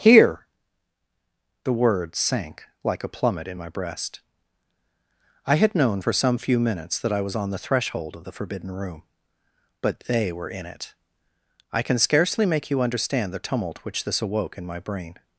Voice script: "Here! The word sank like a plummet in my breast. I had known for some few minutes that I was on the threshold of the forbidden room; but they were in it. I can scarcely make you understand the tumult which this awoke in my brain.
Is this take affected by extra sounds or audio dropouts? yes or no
no